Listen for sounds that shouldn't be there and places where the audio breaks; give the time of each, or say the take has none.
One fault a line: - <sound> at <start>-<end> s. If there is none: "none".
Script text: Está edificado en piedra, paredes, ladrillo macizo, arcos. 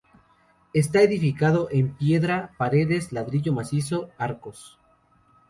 none